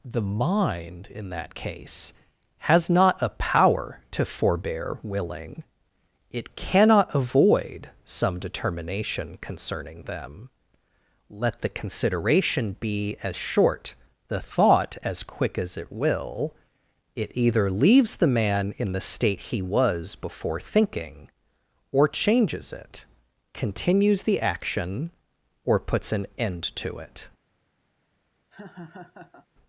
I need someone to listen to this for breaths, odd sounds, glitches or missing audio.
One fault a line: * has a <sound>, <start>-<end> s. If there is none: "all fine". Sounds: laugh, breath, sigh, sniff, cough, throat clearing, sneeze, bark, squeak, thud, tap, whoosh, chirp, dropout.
* has a laugh, 28.5-29.5 s